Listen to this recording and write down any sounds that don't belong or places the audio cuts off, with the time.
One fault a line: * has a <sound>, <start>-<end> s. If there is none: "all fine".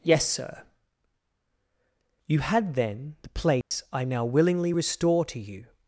* has a dropout, 3.6-3.7 s